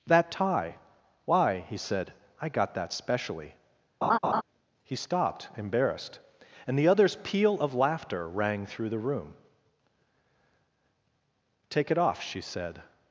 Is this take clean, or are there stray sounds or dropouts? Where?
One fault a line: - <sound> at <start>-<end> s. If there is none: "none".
- laugh at 4.0-4.4 s